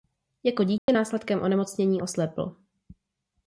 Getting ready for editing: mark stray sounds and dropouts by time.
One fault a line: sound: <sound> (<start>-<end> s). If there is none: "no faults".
sound: dropout (0.8-0.9 s)